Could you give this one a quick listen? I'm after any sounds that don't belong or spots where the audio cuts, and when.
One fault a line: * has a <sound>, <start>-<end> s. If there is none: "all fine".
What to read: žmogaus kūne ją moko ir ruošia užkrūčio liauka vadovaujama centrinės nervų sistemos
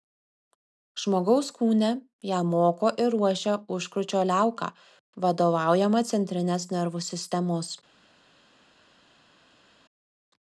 all fine